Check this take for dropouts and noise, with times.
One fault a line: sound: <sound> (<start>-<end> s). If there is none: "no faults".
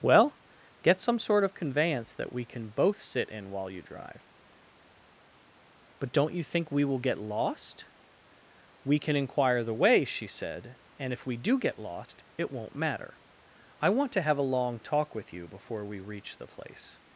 sound: dropout (12.1-12.1 s)